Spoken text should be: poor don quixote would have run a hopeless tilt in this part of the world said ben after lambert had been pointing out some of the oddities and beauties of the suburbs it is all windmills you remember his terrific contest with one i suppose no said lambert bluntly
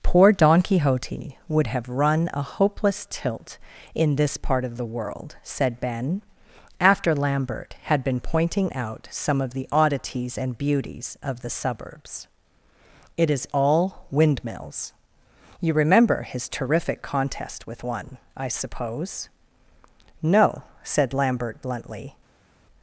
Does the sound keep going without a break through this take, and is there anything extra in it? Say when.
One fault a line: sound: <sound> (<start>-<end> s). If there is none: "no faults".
no faults